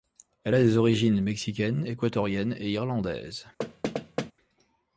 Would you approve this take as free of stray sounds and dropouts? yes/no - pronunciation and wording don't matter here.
no